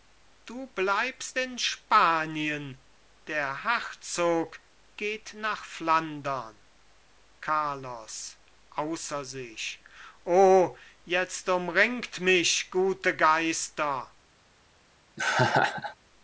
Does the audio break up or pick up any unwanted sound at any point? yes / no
yes